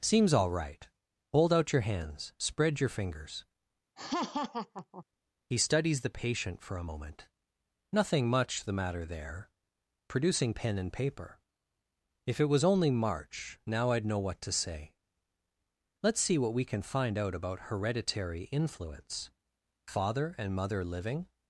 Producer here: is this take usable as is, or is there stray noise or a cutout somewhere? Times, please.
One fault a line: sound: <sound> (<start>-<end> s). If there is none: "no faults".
sound: laugh (4.0-5.0 s)